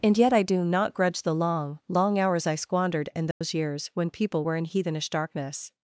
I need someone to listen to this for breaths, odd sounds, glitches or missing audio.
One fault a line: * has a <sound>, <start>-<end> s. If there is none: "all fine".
* has a dropout, 3.3-3.4 s